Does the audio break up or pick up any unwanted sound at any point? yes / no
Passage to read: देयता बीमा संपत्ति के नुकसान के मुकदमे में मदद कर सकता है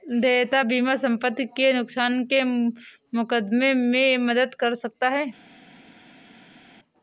no